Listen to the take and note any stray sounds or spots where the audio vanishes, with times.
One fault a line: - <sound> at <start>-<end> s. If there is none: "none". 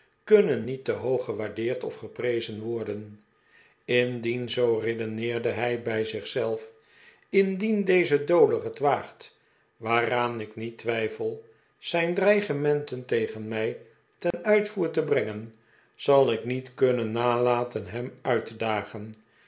- dropout at 14.3-14.3 s